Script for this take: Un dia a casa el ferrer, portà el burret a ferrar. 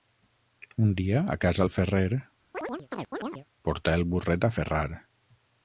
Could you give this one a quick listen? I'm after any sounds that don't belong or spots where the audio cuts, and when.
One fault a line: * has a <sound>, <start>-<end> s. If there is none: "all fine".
* has a chirp, 2.5-3.5 s